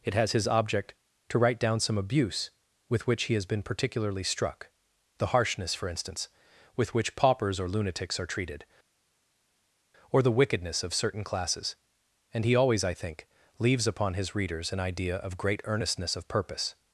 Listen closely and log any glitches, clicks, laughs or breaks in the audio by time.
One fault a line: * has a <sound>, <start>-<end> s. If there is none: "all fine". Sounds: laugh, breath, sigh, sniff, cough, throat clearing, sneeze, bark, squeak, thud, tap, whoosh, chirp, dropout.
all fine